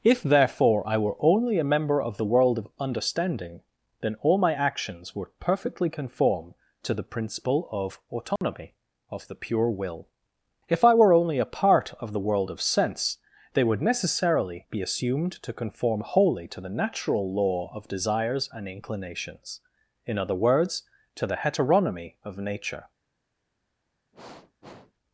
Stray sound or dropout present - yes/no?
yes